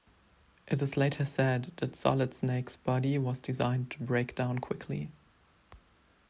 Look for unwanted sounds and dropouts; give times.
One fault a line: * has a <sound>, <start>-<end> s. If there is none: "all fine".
all fine